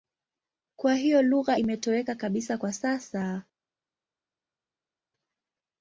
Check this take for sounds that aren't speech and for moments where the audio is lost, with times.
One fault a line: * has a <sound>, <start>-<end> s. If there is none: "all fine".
all fine